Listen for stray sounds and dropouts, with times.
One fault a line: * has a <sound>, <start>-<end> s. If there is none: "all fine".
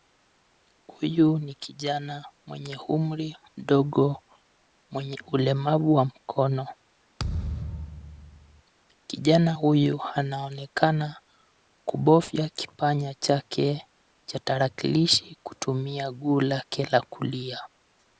* has a thud, 7.2-8.6 s